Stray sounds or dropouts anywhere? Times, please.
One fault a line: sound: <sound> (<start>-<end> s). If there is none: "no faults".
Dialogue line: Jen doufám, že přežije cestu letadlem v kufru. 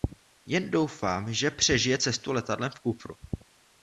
no faults